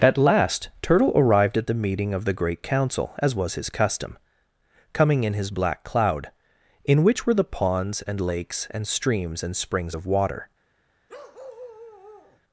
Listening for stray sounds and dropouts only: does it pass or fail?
fail